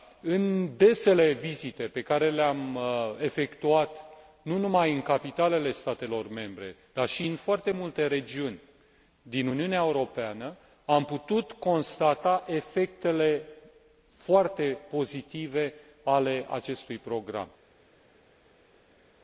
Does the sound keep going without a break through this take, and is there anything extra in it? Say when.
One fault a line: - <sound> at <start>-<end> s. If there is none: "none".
none